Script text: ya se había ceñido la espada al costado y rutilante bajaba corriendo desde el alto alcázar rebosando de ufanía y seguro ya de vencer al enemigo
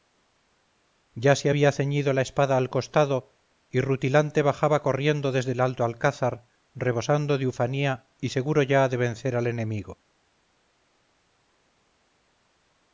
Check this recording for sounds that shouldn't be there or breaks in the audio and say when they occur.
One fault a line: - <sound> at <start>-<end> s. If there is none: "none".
none